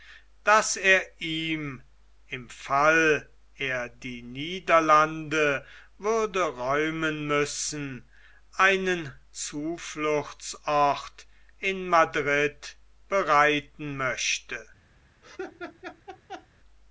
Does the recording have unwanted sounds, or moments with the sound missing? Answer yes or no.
yes